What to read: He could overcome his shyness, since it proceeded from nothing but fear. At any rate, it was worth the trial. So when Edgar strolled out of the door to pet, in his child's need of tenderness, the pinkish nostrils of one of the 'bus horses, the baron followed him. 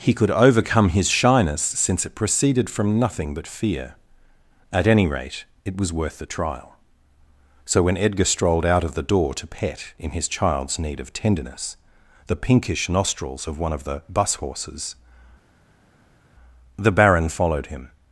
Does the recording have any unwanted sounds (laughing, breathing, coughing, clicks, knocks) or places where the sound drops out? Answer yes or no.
no